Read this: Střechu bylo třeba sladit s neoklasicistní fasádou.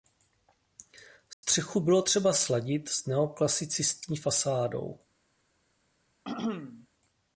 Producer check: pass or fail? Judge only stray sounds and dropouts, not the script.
fail